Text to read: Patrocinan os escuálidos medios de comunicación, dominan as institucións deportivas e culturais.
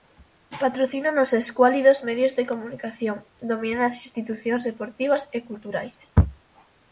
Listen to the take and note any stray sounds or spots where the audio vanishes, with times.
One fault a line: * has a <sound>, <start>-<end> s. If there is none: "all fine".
all fine